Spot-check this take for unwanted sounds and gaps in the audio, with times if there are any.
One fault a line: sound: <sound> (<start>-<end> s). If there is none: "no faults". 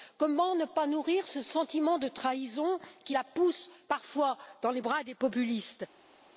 no faults